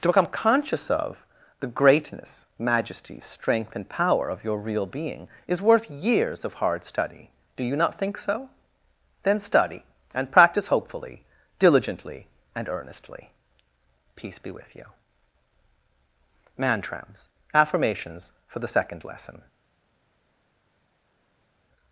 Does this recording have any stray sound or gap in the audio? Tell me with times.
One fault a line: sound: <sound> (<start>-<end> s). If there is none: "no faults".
no faults